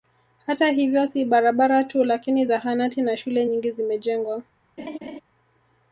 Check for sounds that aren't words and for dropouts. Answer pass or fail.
fail